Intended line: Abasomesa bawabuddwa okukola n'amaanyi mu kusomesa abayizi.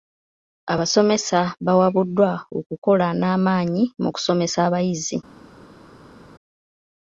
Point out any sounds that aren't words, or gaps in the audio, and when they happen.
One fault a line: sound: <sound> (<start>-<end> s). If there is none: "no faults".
no faults